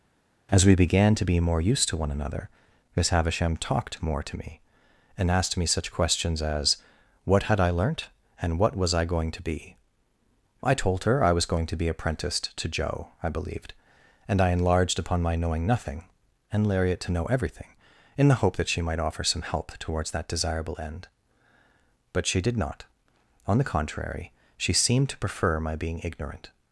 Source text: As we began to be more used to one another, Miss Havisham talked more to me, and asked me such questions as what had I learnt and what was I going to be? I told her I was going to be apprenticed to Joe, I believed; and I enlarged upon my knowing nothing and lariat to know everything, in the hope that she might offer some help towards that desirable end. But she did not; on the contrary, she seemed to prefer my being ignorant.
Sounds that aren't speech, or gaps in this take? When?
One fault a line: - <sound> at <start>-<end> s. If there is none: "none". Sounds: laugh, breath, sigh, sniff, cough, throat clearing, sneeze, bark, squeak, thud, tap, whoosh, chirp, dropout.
none